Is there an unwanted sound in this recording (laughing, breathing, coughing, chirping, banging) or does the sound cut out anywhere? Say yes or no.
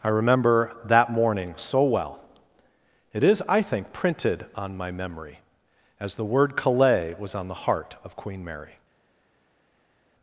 no